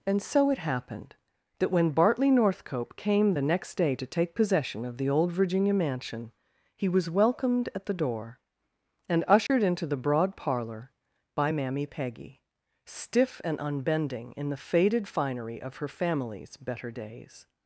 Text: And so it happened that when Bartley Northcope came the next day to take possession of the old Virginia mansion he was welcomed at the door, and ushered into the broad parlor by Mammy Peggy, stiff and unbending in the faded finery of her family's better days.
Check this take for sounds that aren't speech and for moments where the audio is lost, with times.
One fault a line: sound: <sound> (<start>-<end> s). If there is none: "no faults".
sound: dropout (9.5-9.5 s)